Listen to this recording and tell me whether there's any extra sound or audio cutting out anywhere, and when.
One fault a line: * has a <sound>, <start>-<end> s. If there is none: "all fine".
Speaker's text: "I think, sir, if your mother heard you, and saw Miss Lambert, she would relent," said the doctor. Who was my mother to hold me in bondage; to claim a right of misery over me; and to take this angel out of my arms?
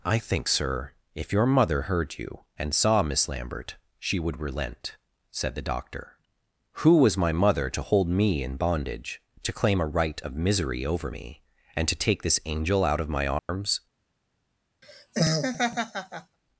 * has a dropout, 13.4-13.5 s
* has a laugh, 14.8-16.4 s